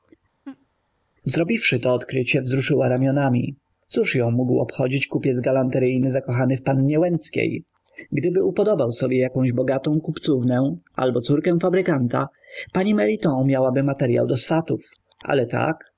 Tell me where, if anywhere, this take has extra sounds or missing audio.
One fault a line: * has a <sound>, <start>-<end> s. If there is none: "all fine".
* has a laugh, 0.4-0.7 s